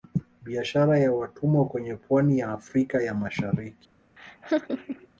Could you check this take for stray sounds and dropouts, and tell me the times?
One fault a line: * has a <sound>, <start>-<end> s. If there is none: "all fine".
* has a laugh, 4.2-5.1 s